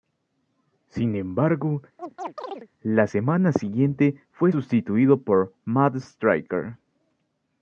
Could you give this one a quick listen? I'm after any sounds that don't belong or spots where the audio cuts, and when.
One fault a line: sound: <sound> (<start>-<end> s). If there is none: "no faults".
sound: chirp (2.0-2.7 s)